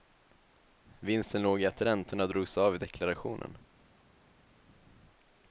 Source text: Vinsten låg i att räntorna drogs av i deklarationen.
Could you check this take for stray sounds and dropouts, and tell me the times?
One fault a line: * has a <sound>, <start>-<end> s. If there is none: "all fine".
all fine